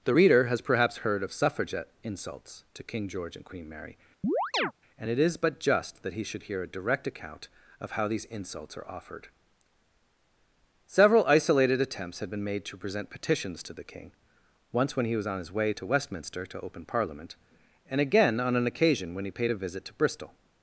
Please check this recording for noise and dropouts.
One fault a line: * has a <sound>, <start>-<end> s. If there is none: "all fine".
* has a chirp, 4.2-4.7 s